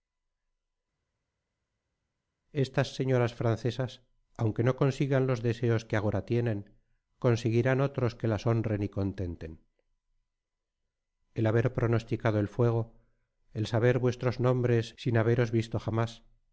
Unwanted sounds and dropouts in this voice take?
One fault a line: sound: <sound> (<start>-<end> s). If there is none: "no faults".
no faults